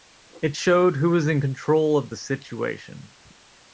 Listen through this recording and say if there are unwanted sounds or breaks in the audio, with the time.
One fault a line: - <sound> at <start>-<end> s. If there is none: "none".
none